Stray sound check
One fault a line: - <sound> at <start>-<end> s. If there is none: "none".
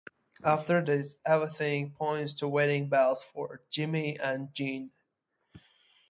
none